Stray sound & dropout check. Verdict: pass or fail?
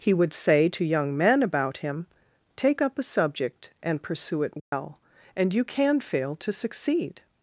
fail